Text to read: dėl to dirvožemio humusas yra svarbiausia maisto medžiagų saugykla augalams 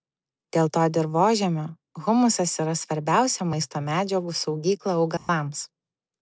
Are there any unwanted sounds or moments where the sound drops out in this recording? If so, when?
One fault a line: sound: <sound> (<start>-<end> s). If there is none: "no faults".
sound: dropout (5.2-5.3 s)